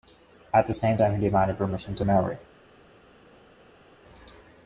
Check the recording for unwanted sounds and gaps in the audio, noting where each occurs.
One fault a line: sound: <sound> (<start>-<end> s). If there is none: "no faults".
no faults